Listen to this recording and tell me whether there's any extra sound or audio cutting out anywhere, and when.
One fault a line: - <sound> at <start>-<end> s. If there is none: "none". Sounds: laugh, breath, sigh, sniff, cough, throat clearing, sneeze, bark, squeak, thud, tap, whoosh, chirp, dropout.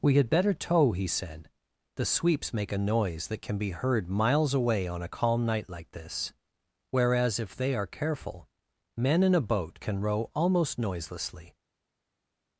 none